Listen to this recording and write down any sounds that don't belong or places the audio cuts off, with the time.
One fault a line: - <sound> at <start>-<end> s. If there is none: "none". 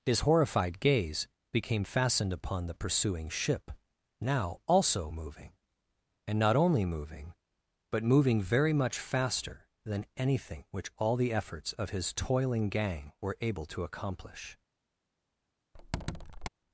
- squeak at 15.7-16.5 s